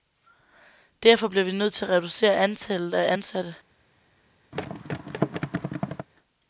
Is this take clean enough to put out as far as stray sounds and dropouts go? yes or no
no